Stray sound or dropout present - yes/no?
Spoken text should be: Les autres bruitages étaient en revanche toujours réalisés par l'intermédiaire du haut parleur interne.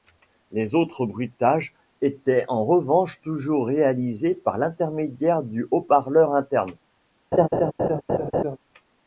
yes